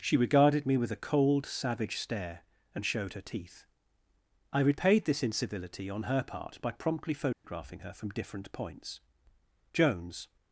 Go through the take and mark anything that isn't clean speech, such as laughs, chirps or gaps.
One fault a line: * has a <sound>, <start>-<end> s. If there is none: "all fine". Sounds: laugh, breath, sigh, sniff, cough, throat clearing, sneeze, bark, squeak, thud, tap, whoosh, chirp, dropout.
* has a dropout, 7.3-7.4 s